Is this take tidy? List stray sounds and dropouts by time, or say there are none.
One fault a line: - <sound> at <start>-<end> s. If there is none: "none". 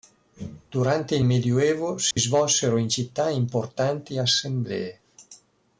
- dropout at 2.1-2.2 s